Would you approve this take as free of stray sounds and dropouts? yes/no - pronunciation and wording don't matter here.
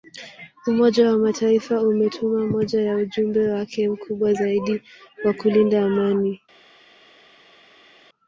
yes